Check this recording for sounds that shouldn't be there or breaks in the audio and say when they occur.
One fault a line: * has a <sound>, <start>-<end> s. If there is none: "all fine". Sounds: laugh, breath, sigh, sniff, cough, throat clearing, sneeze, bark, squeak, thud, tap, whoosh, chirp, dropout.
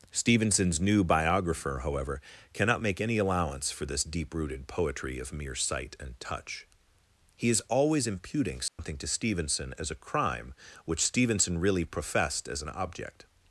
* has a dropout, 8.7-8.8 s